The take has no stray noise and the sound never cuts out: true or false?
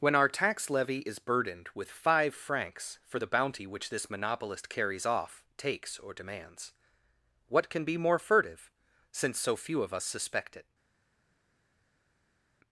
true